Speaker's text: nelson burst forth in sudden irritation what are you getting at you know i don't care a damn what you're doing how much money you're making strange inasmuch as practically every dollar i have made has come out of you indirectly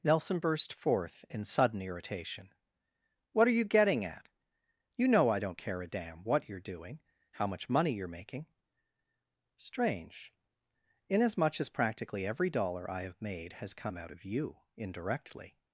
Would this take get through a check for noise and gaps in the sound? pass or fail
pass